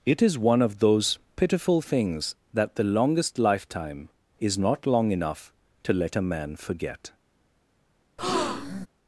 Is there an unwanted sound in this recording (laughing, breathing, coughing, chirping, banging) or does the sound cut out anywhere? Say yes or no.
yes